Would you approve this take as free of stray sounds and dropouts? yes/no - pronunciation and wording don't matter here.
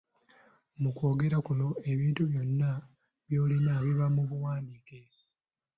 yes